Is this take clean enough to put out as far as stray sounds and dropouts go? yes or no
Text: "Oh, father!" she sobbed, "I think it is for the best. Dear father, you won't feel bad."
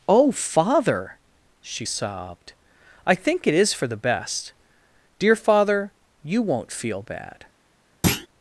no